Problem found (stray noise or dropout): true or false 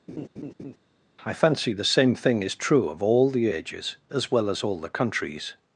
true